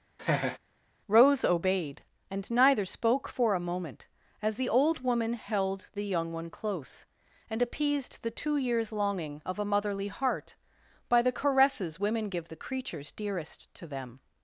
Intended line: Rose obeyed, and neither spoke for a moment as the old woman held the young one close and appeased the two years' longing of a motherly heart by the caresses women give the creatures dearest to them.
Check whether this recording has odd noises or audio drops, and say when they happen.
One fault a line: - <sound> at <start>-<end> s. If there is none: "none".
- laugh at 0.2-0.6 s